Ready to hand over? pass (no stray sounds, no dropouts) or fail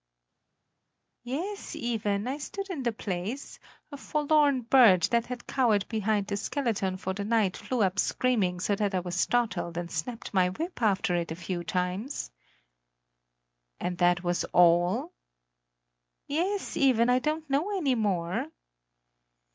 pass